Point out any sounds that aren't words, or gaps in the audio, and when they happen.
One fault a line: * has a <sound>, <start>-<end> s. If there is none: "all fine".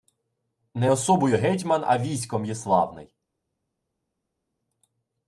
all fine